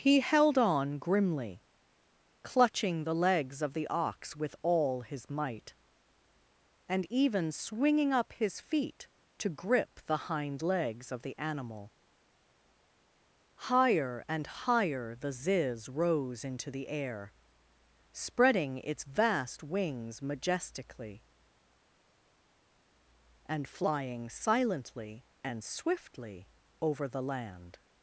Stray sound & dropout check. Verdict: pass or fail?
pass